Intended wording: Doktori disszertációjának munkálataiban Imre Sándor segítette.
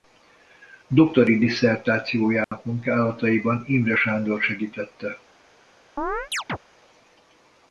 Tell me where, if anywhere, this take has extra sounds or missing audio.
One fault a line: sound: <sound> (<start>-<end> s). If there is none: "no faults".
sound: dropout (2.4-2.5 s)
sound: chirp (6.0-6.6 s)